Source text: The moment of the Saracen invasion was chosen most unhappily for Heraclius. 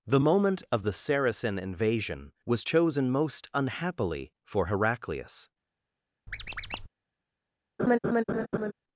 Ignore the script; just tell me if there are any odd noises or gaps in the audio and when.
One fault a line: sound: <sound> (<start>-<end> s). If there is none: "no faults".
sound: squeak (6.3-6.9 s)
sound: laugh (7.8-8.7 s)